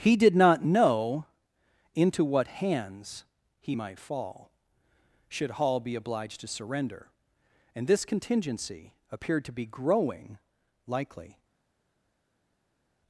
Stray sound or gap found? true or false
false